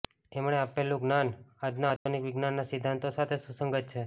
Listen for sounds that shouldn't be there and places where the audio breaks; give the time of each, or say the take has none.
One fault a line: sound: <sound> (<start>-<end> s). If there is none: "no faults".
sound: dropout (2.0-2.1 s)